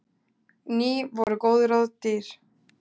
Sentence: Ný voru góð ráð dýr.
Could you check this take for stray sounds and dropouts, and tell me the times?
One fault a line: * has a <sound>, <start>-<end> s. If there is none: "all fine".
* has a dropout, 1.2-1.3 s